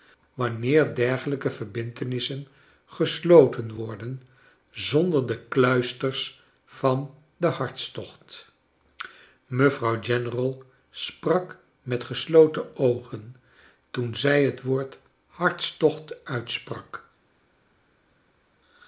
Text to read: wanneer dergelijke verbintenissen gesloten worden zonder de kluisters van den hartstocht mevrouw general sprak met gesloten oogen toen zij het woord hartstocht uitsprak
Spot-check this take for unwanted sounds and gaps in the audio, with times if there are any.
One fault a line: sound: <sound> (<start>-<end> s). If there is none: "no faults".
no faults